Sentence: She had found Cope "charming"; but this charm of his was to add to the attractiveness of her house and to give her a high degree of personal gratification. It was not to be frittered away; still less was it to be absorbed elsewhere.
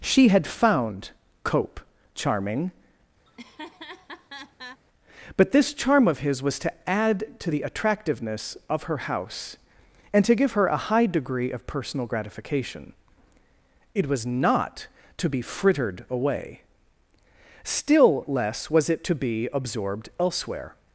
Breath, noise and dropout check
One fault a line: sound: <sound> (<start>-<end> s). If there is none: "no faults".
sound: laugh (3.3-4.8 s)